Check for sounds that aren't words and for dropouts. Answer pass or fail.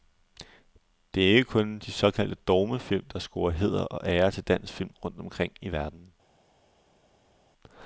pass